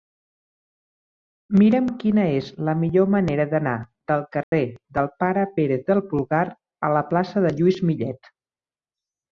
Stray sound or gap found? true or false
true